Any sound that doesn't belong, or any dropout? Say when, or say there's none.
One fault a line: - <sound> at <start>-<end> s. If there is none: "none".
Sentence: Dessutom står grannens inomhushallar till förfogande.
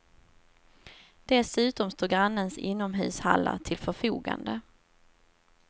none